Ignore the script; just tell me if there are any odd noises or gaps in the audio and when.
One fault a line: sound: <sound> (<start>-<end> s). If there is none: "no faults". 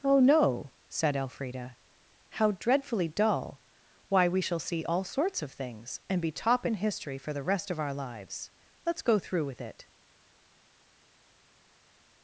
no faults